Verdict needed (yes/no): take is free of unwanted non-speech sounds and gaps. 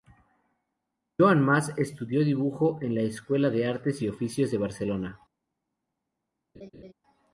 no